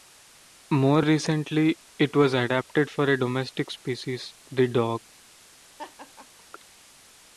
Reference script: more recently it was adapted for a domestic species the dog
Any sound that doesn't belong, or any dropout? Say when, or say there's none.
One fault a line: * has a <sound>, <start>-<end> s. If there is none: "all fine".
* has a laugh, 5.8-6.4 s